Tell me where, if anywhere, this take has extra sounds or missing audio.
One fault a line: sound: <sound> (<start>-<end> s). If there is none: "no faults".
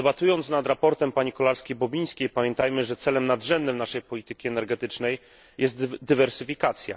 no faults